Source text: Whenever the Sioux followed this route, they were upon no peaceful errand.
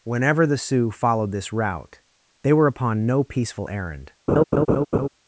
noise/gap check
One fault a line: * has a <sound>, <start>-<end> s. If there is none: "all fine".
* has a laugh, 4.3-5.1 s